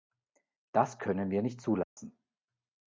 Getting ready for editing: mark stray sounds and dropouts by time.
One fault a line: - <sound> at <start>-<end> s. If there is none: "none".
- dropout at 1.8-2.0 s